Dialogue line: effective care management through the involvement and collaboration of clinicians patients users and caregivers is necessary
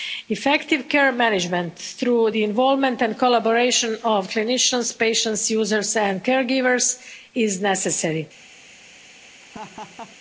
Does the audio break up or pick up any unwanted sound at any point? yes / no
yes